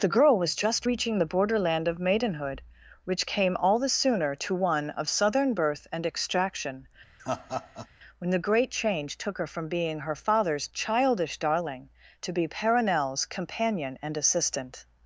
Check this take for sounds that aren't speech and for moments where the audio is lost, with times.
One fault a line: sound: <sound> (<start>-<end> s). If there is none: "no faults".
sound: laugh (7.2-7.9 s)